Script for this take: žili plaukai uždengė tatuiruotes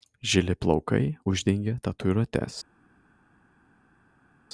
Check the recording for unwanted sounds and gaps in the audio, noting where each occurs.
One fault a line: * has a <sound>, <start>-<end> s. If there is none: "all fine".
all fine